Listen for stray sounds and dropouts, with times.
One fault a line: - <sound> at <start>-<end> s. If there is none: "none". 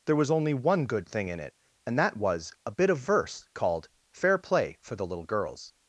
none